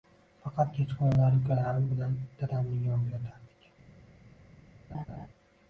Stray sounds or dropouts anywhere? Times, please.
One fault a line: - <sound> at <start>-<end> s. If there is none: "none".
- laugh at 4.9-5.3 s